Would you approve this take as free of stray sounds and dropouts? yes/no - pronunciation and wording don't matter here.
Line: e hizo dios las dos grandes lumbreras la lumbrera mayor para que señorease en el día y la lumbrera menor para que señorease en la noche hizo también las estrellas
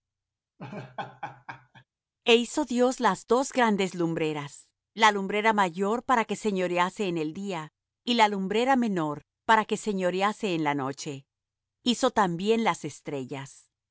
no